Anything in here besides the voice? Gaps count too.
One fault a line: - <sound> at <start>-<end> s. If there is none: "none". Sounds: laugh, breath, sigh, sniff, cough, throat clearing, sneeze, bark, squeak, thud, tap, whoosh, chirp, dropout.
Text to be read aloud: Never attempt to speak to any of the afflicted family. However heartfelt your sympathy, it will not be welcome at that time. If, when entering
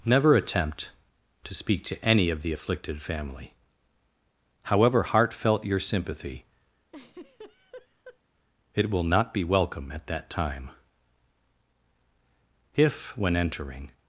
- laugh at 6.9-8.2 s